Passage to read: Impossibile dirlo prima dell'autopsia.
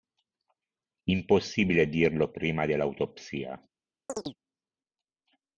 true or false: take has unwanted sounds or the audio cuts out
true